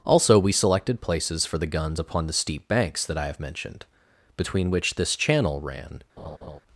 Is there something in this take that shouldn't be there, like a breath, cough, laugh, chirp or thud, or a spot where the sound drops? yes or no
yes